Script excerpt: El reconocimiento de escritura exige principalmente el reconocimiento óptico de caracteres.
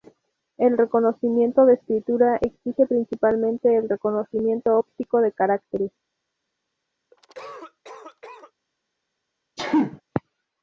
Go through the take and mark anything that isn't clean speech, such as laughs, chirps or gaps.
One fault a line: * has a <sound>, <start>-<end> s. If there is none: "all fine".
* has a cough, 7.1-8.5 s
* has a sneeze, 9.6-10.0 s